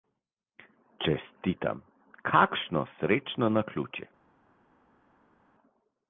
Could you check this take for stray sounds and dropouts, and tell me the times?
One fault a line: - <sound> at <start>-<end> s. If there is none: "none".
none